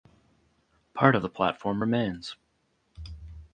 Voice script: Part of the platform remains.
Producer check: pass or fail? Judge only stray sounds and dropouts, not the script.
pass